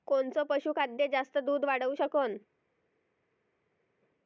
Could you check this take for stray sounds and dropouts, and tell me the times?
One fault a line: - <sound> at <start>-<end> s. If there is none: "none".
none